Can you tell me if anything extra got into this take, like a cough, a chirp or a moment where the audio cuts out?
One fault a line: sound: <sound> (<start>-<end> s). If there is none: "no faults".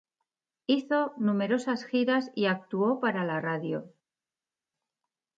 no faults